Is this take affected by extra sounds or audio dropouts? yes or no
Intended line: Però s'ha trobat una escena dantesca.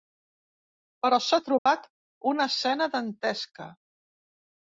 yes